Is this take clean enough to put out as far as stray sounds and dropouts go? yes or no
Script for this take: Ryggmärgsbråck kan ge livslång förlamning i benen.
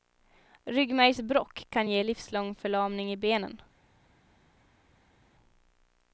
yes